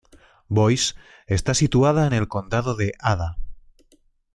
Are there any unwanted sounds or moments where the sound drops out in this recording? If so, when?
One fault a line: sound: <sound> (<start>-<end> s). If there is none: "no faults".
no faults